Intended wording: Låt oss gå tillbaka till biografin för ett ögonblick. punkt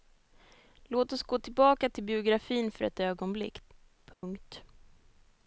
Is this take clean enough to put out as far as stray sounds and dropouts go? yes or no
no